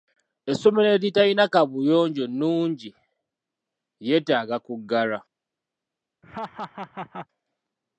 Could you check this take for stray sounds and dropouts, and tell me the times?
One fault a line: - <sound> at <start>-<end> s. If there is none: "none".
- laugh at 6.2-7.3 s